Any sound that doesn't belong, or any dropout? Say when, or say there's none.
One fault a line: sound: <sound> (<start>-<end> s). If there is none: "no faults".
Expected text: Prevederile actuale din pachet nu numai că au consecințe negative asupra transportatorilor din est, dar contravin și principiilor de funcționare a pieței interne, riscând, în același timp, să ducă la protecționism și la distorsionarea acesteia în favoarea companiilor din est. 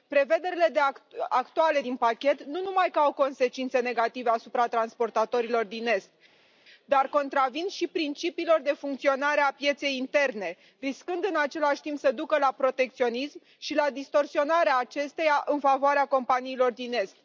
no faults